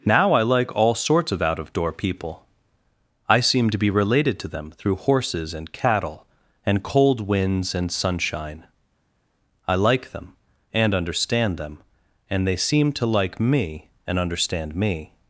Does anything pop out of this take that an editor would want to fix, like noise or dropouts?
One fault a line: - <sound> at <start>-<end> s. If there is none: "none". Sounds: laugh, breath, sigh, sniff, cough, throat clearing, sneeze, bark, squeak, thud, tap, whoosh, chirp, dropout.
none